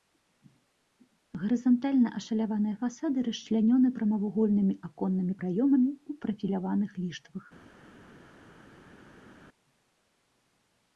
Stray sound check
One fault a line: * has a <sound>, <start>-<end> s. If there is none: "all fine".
all fine